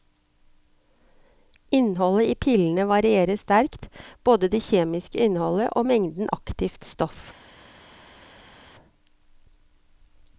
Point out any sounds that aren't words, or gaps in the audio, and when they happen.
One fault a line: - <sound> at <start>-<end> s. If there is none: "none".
none